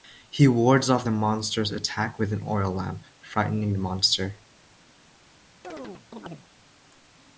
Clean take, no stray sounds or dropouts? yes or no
no